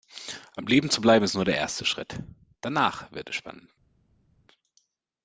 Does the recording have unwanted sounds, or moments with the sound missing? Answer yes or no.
no